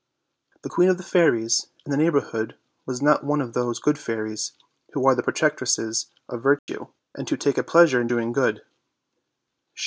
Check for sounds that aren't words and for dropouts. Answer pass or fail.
fail